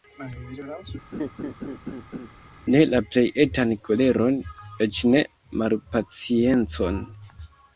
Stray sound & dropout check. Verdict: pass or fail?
fail